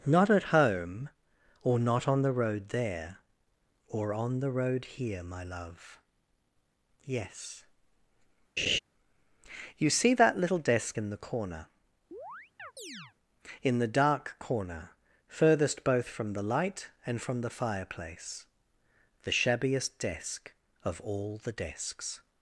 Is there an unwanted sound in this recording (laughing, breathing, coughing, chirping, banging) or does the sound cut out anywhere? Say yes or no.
yes